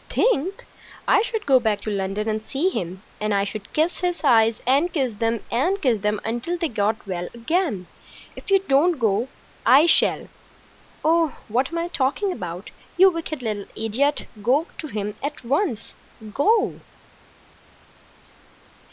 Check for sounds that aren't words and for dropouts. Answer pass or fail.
pass